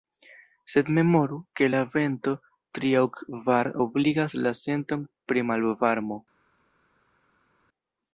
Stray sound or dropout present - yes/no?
no